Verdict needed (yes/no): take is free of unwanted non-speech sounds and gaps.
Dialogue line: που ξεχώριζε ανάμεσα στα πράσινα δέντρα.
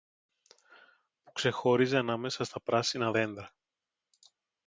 yes